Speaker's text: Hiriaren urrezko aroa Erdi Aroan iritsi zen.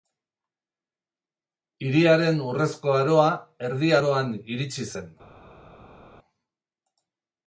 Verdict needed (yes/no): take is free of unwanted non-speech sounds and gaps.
yes